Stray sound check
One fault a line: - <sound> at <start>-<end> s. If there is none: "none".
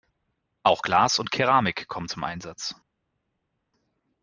none